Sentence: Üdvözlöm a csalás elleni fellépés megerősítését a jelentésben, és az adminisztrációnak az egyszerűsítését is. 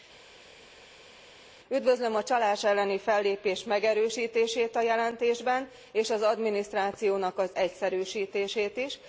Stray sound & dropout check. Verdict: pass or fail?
pass